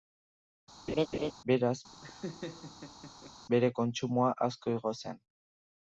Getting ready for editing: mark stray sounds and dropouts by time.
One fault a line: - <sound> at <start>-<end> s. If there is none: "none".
- laugh at 0.9-1.3 s
- laugh at 1.9-3.3 s